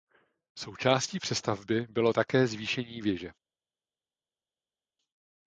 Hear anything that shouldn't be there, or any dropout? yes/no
no